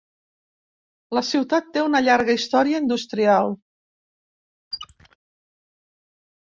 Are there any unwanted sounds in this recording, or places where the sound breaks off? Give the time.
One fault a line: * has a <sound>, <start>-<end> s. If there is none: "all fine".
* has a squeak, 4.7-5.2 s